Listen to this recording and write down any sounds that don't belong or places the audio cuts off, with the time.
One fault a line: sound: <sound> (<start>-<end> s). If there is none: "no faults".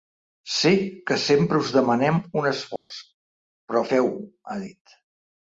sound: dropout (2.8-2.9 s)